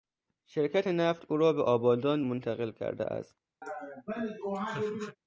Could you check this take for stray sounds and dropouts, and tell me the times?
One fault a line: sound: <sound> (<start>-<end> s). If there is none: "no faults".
sound: laugh (3.6-5.2 s)